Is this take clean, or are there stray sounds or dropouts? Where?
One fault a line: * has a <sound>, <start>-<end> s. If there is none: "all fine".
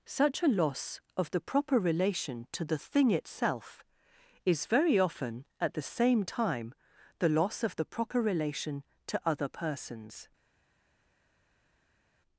all fine